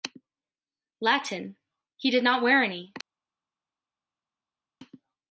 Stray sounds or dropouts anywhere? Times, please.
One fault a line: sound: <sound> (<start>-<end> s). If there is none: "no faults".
no faults